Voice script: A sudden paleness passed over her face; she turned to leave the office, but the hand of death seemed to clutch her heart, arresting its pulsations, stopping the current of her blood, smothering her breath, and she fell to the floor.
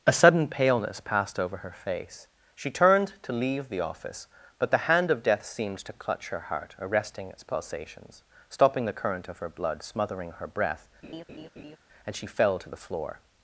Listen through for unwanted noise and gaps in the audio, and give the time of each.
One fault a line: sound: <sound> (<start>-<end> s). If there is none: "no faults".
sound: laugh (11.0-11.8 s)